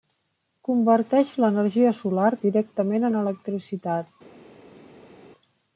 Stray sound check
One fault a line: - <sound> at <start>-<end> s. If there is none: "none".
none